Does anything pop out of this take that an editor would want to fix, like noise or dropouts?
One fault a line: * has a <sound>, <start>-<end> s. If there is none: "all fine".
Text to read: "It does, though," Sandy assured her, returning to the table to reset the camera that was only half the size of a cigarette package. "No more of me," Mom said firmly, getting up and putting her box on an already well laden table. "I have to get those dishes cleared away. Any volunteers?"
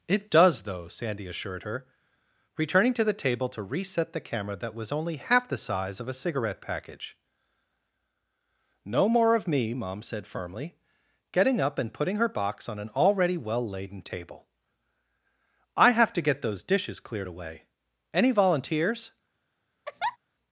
* has a laugh, 19.9-20.2 s